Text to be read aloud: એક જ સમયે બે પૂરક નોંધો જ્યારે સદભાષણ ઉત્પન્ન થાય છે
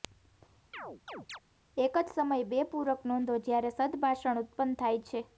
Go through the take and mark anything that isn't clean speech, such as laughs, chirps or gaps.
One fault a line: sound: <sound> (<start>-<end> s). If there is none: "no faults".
sound: chirp (0.7-1.4 s)